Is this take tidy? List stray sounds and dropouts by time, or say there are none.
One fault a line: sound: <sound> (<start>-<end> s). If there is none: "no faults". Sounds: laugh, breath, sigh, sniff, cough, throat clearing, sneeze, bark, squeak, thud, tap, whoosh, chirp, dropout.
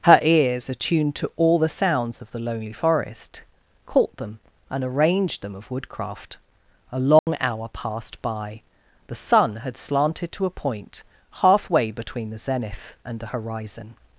sound: dropout (7.2-7.3 s)